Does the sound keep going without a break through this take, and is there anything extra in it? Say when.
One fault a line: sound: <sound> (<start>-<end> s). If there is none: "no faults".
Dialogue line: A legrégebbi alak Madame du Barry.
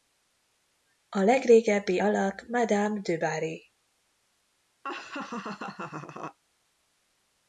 sound: laugh (4.8-6.4 s)